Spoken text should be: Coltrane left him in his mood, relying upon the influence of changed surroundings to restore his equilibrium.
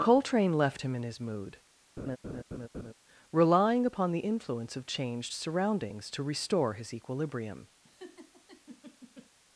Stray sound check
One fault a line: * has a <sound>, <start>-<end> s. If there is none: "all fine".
* has a laugh, 2.0-2.9 s
* has a laugh, 7.8-9.3 s